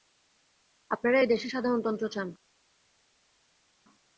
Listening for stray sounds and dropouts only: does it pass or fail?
pass